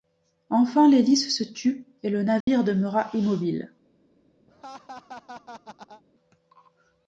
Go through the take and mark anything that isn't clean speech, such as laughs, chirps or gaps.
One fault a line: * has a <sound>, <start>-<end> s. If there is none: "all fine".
* has a dropout, 2.4-2.5 s
* has a laugh, 4.5-6.0 s